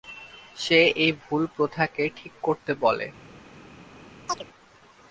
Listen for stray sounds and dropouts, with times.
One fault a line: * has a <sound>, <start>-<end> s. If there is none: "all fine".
* has a chirp, 4.3-4.4 s